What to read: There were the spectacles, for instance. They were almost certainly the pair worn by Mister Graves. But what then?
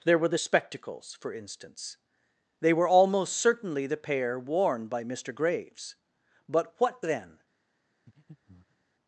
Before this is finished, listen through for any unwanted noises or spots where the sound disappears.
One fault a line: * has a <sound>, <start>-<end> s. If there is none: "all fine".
* has a breath, 8.1-8.8 s